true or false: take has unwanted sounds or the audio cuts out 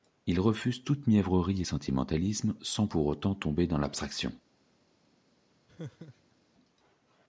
true